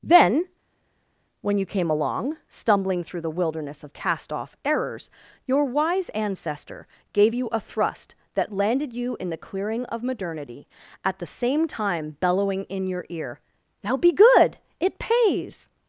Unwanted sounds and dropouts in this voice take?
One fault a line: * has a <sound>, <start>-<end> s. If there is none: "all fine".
all fine